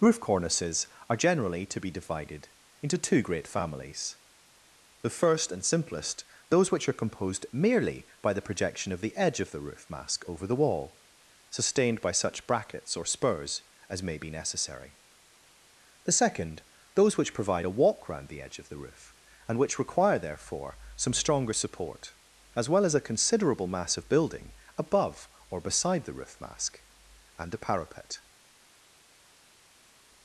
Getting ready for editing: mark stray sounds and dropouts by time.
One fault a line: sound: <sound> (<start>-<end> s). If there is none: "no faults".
no faults